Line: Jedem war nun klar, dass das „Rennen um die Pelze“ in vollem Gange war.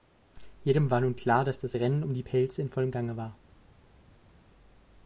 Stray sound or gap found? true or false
false